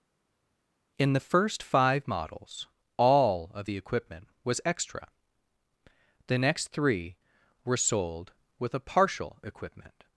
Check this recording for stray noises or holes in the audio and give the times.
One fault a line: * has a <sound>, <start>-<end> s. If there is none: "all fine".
all fine